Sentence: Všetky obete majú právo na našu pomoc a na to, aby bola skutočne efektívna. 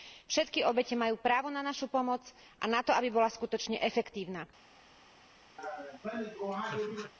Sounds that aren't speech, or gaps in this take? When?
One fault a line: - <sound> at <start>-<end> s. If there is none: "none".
- laugh at 5.6-7.1 s